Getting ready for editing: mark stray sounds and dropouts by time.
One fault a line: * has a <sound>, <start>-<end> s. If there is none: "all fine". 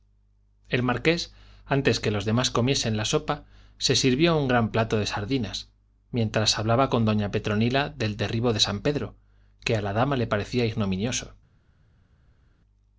all fine